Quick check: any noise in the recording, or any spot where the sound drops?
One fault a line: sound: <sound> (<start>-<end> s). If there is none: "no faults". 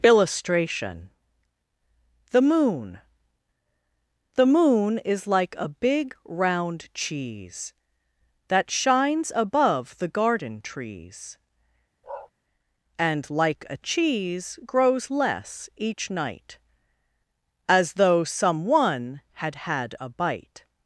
sound: bark (12.0-12.3 s)